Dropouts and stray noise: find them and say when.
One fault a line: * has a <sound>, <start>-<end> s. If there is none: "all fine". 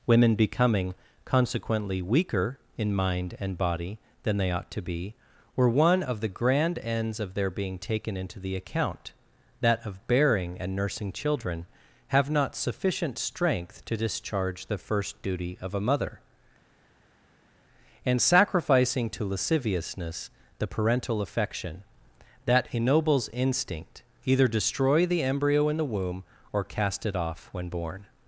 all fine